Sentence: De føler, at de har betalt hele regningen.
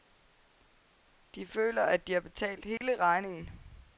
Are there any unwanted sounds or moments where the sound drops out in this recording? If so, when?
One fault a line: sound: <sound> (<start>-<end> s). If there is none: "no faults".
sound: dropout (2.8-2.8 s)